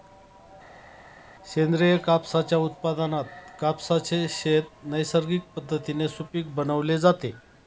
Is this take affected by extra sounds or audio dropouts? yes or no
no